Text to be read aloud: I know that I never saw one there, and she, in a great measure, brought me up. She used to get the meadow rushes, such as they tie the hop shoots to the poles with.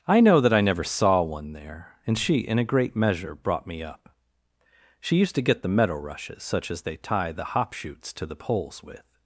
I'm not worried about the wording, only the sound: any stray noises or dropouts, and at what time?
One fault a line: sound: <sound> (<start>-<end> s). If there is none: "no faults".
no faults